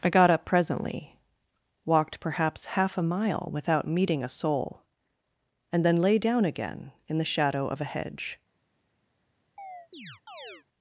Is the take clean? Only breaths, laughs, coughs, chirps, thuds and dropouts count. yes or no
no